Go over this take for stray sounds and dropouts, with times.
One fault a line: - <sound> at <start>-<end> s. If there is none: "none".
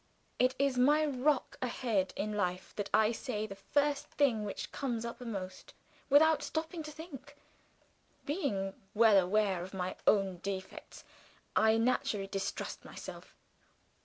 none